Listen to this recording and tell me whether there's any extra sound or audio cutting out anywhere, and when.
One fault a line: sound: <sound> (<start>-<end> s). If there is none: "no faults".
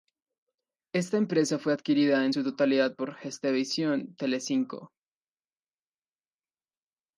no faults